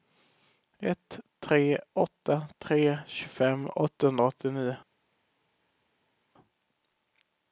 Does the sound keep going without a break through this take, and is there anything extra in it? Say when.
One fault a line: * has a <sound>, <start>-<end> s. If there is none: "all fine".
all fine